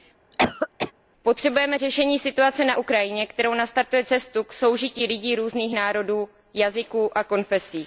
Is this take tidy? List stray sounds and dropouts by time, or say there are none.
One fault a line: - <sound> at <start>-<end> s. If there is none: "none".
- cough at 0.3-0.9 s